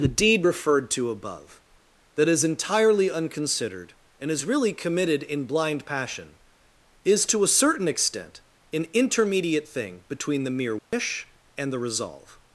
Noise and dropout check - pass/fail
fail